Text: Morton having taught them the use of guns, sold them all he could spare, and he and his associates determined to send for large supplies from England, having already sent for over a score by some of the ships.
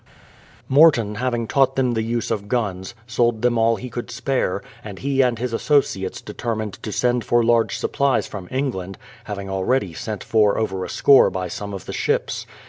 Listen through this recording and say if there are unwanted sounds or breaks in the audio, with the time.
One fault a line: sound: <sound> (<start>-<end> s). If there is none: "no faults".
no faults